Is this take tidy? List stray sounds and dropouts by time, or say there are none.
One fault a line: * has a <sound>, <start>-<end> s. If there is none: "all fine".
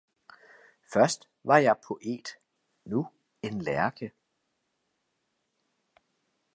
all fine